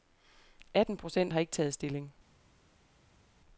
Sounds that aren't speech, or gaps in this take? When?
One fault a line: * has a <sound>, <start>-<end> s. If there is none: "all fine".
all fine